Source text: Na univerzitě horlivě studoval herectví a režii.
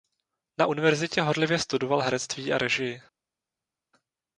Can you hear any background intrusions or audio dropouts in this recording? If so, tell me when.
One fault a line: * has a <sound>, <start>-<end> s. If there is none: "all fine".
all fine